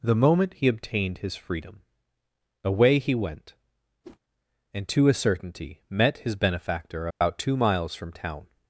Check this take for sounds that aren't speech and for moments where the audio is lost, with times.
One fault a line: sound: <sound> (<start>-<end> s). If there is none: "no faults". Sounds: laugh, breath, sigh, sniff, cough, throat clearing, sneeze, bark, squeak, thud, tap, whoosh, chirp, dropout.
sound: whoosh (4.0-4.2 s)
sound: dropout (7.1-7.2 s)